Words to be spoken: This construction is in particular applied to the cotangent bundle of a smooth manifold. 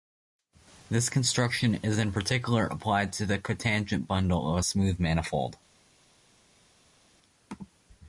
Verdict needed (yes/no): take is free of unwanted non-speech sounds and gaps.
yes